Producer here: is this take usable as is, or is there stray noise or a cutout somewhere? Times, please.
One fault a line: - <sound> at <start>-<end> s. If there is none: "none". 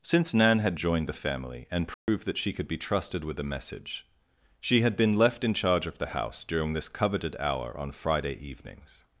- dropout at 1.9-2.1 s